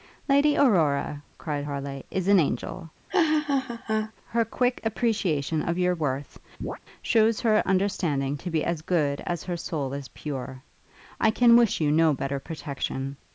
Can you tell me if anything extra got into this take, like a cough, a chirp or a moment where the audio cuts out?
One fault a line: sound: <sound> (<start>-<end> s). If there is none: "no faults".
sound: laugh (3.1-4.1 s)
sound: chirp (6.6-6.8 s)